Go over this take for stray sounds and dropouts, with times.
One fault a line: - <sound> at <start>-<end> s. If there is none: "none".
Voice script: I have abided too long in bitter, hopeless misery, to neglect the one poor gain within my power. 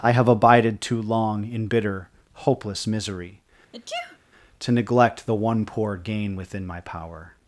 - sneeze at 3.7-4.2 s